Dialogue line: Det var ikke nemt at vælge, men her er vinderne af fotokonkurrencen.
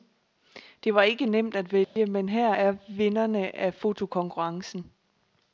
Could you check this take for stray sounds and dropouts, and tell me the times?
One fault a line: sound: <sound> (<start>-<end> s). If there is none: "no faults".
sound: dropout (1.8-2.0 s)